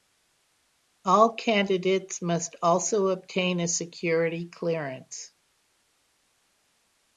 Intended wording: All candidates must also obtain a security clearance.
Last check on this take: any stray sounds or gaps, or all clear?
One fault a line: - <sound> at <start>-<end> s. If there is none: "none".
none